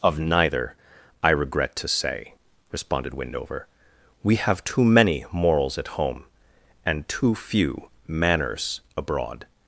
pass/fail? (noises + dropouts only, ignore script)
pass